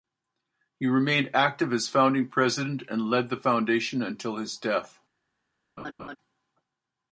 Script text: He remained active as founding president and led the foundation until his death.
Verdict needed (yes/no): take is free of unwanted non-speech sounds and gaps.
no